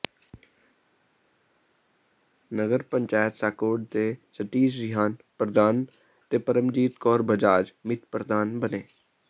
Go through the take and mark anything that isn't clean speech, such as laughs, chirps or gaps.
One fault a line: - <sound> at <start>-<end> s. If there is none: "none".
none